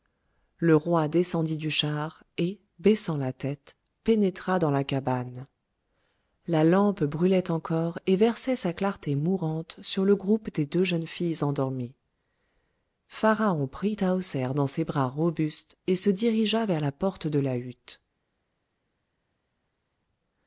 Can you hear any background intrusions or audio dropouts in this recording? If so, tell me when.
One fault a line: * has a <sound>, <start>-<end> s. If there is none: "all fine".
all fine